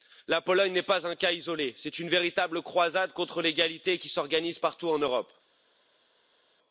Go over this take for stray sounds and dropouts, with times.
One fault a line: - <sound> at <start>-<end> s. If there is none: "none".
none